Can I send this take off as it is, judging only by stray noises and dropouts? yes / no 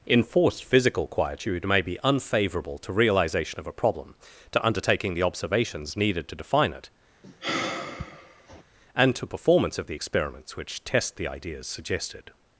no